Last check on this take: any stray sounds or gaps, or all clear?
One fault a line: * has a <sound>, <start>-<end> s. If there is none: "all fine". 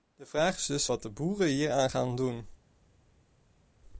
all fine